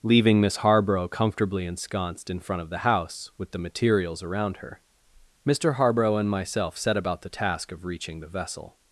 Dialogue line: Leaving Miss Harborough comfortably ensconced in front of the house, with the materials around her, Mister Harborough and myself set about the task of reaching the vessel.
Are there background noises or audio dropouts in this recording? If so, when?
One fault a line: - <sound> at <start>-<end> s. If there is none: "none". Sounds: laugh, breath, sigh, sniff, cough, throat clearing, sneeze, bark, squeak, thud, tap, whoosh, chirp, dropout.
none